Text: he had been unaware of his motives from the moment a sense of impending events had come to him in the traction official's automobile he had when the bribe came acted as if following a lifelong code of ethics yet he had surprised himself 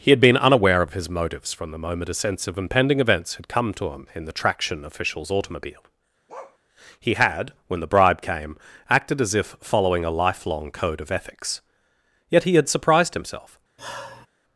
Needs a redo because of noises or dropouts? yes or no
yes